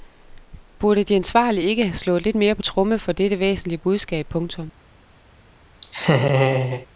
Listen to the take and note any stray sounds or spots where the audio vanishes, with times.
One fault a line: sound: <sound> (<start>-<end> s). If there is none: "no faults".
sound: laugh (5.8-6.9 s)